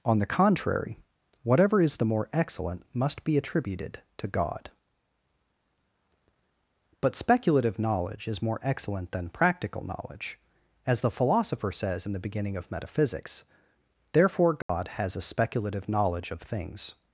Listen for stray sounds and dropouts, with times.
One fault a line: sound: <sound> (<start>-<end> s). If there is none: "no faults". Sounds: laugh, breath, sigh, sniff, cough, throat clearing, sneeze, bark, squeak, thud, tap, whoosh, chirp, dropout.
sound: dropout (14.6-14.7 s)